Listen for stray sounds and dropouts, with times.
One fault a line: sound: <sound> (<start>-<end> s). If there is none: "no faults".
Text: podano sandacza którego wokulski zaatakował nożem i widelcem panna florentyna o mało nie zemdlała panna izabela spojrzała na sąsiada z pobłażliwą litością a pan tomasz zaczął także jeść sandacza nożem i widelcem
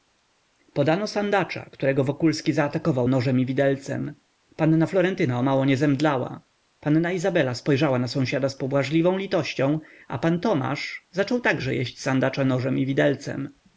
no faults